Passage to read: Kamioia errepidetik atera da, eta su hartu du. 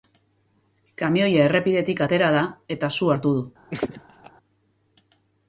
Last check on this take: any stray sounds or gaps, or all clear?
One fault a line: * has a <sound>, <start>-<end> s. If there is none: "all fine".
* has a laugh, 3.7-4.3 s